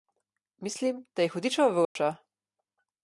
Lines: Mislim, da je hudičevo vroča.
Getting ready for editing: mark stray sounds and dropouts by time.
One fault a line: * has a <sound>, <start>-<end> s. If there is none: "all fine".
* has a dropout, 1.8-2.0 s